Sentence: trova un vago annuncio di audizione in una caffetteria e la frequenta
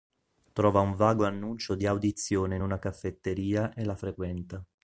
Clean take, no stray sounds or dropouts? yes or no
yes